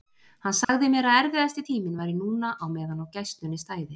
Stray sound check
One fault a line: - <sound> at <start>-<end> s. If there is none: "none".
- dropout at 0.6-0.7 s